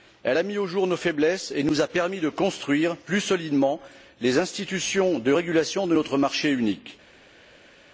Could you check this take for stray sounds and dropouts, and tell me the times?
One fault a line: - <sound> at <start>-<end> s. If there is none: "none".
none